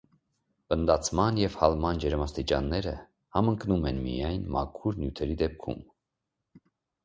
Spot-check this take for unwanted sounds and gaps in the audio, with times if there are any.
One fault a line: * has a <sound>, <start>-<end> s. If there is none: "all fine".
all fine